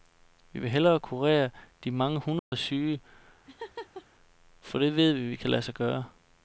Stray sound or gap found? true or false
true